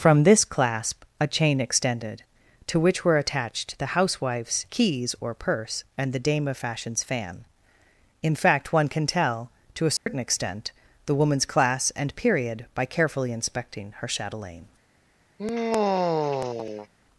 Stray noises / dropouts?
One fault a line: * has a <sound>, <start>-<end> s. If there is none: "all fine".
* has a dropout, 10.0-10.1 s
* has a sigh, 15.4-16.9 s